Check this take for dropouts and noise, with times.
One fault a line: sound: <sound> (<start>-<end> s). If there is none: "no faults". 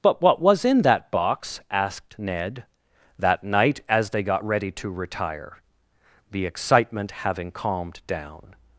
no faults